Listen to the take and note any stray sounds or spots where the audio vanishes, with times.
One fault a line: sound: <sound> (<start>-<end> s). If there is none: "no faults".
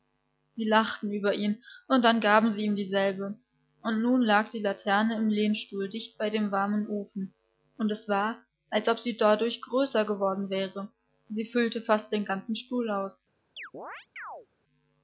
sound: chirp (13.6-14.5 s)